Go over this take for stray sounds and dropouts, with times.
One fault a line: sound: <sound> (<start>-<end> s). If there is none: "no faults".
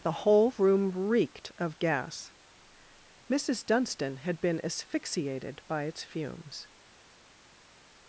no faults